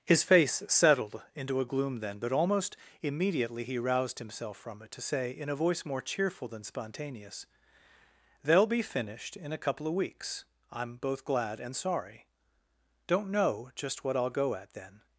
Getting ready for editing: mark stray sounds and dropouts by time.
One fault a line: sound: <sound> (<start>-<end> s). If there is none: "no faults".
no faults